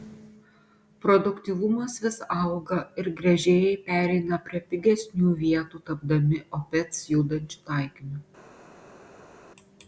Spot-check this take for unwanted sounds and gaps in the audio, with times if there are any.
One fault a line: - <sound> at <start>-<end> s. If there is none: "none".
none